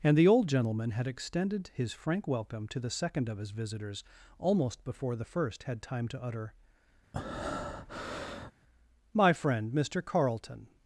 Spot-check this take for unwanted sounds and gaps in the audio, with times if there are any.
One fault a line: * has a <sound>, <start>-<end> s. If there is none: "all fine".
* has a breath, 7.1-8.5 s